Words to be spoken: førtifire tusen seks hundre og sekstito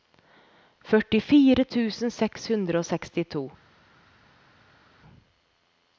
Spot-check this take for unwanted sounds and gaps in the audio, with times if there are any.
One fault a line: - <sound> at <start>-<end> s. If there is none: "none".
none